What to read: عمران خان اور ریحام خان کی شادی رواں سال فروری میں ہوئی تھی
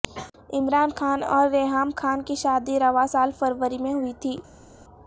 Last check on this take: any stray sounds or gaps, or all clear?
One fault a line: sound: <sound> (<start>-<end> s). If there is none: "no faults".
no faults